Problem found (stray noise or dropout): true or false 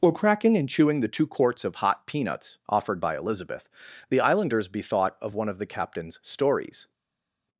false